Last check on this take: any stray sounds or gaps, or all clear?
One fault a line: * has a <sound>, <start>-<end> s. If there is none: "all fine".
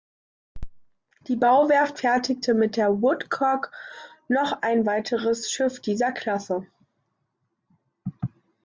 all fine